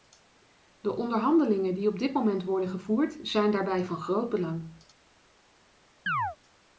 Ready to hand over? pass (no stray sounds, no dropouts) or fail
fail